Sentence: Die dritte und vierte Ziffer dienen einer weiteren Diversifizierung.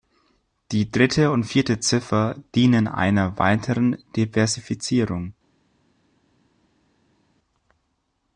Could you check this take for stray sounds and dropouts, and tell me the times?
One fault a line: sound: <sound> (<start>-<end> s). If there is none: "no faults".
no faults